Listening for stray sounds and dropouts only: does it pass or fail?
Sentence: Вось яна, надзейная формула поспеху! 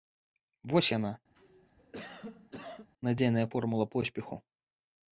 fail